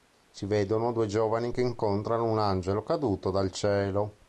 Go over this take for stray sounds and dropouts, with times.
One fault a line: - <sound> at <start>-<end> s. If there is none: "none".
none